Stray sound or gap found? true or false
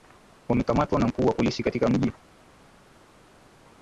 false